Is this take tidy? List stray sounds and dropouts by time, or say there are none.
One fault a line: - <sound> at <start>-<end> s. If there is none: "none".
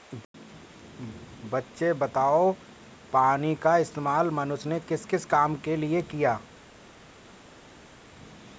none